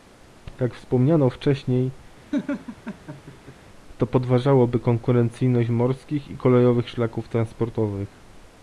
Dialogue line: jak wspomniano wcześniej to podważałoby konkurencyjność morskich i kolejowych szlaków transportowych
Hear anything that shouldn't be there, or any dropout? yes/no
yes